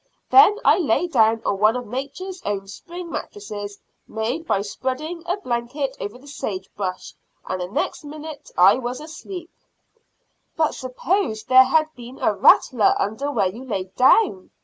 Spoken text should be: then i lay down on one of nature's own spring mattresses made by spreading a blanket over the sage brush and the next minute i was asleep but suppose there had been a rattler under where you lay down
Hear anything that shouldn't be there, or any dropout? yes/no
no